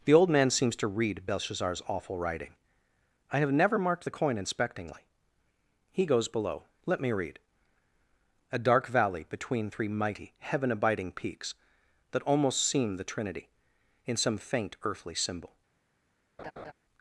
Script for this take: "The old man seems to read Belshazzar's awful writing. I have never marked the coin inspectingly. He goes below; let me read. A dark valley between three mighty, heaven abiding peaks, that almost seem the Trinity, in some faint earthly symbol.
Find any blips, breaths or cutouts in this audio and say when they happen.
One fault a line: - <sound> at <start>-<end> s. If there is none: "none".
- laugh at 16.4-16.7 s